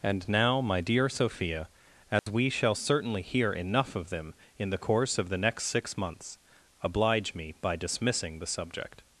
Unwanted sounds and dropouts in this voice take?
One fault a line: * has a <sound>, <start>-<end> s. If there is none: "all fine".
* has a dropout, 2.2-2.3 s